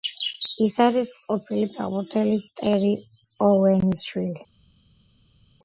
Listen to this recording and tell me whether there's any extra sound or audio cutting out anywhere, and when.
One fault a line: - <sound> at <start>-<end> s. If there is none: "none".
none